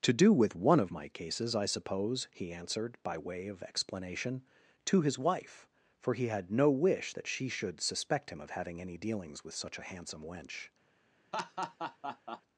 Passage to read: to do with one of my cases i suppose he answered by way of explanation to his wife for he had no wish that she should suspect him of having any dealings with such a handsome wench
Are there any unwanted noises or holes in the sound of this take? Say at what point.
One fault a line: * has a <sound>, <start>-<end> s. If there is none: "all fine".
* has a laugh, 11.3-12.4 s